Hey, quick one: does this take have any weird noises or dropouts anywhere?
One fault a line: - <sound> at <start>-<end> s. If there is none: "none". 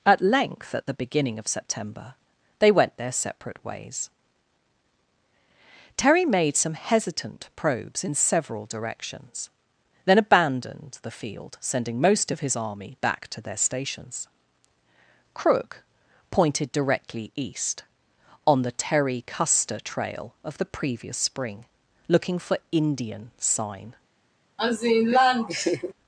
- laugh at 24.6-25.9 s